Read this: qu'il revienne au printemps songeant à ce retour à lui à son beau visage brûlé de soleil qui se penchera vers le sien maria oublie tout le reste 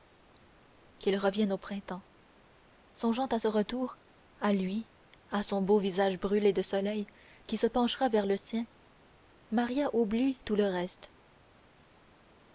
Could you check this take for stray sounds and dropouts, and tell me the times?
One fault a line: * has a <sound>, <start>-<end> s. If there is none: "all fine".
all fine